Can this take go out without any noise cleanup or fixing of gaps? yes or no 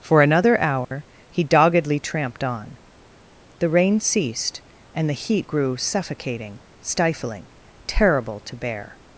no